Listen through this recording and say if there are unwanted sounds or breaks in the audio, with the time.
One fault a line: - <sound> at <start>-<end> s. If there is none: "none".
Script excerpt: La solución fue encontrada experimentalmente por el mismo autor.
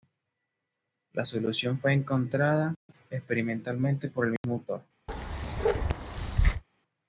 - dropout at 4.4-4.4 s
- bark at 5.1-6.6 s